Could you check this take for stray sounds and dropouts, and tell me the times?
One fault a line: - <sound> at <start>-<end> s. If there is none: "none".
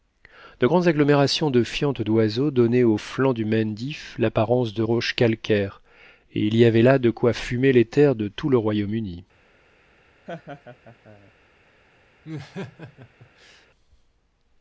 - laugh at 10.3-11.3 s
- laugh at 12.2-13.7 s